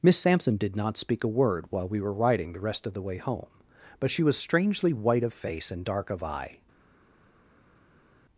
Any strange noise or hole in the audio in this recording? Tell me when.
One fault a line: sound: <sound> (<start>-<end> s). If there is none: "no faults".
no faults